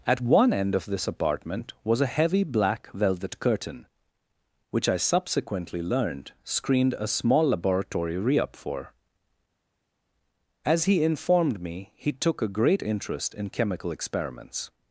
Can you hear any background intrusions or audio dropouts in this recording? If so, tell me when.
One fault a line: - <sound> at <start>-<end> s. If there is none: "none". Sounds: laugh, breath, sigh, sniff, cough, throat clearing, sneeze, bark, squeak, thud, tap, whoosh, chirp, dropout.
none